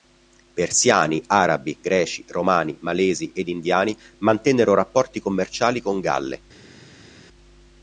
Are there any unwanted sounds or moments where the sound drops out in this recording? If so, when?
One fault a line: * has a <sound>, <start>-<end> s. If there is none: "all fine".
all fine